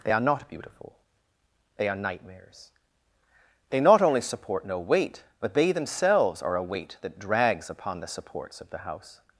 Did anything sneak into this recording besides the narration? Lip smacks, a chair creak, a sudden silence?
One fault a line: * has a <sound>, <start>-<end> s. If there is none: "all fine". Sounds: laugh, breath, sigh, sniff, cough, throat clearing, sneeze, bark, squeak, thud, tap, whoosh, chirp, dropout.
all fine